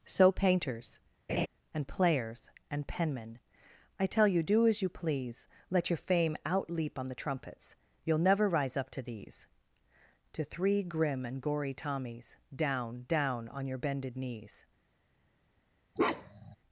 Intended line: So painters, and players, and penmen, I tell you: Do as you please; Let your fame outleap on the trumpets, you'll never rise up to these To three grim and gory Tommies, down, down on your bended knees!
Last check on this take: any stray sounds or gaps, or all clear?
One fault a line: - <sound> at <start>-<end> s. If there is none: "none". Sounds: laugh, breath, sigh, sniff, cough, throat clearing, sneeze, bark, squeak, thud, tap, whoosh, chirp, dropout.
- laugh at 1.3-1.5 s
- bark at 16.0-16.6 s